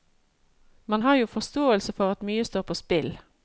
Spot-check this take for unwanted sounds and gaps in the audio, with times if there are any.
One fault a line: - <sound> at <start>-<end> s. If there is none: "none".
none